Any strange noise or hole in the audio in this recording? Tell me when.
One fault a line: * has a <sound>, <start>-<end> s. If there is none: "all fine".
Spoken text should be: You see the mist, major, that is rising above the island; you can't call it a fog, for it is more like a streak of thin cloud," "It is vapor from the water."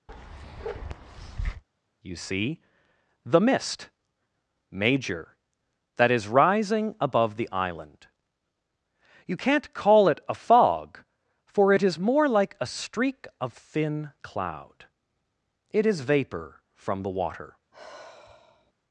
* has a bark, 0.1-1.6 s
* has a sigh, 17.7-18.7 s